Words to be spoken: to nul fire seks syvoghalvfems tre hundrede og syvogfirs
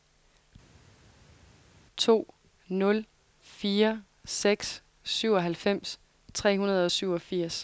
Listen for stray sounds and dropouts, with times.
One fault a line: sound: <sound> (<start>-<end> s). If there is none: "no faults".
no faults